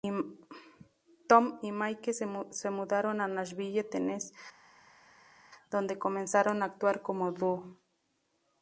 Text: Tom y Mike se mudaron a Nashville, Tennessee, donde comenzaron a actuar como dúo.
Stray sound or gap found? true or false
false